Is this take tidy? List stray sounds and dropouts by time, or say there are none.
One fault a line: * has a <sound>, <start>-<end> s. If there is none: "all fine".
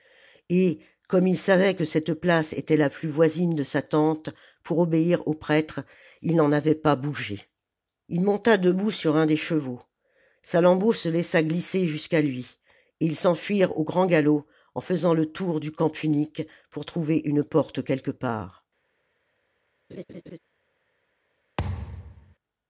* has a laugh, 19.9-20.4 s
* has a thud, 21.6-22.4 s